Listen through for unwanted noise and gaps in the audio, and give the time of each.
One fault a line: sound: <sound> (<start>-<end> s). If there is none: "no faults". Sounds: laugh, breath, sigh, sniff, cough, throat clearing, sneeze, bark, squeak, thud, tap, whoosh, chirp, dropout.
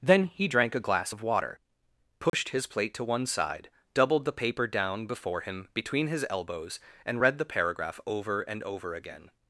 sound: dropout (2.3-2.3 s)